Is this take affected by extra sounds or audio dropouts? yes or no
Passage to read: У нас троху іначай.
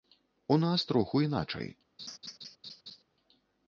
yes